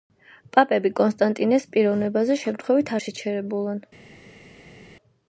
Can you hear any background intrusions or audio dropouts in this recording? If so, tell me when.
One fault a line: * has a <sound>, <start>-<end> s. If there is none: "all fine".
all fine